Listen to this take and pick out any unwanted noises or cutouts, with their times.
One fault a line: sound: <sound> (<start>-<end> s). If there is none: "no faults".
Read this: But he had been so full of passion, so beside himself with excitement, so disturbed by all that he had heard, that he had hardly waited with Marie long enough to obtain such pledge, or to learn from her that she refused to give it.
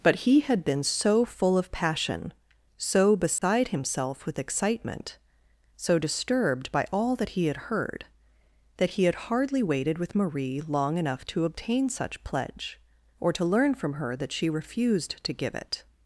sound: dropout (3.4-3.4 s)